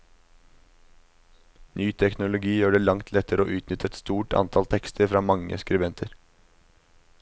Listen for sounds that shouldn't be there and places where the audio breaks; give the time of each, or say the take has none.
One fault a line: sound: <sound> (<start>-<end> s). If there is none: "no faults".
no faults